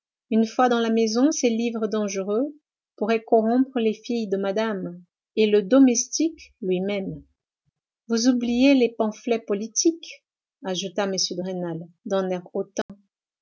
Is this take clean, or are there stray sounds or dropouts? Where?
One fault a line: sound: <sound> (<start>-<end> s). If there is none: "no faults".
sound: dropout (12.8-12.9 s)